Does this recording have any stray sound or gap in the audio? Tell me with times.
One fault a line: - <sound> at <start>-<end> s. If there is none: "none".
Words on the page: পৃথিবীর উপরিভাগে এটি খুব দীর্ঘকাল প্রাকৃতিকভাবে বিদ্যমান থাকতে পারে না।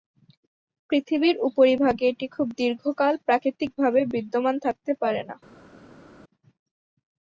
none